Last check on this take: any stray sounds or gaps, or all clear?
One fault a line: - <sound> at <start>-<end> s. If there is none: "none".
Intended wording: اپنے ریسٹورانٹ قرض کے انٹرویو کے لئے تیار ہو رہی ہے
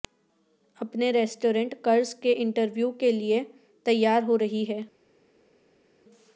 none